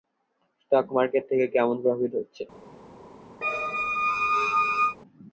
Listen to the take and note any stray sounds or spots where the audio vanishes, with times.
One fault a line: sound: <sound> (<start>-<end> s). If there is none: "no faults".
sound: squeak (3.4-5.0 s)